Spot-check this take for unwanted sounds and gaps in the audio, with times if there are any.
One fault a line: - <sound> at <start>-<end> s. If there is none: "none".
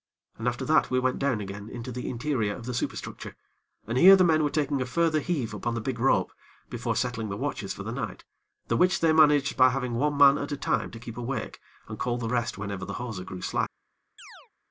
- chirp at 14.2-14.5 s